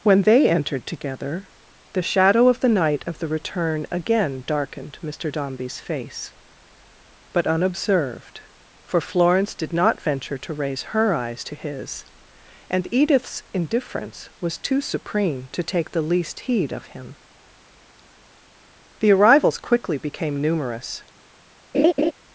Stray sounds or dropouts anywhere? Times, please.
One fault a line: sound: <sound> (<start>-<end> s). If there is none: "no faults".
sound: laugh (21.7-22.1 s)